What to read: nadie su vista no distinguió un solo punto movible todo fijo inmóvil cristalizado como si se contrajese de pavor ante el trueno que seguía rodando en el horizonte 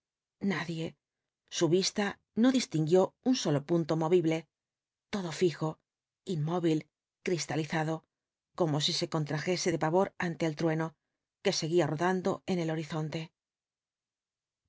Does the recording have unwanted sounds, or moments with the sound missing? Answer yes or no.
no